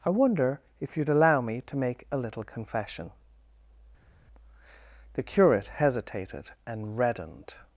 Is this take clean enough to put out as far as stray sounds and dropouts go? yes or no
yes